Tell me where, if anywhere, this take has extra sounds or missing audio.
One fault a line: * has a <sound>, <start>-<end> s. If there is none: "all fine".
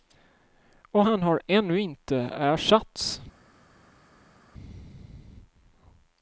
all fine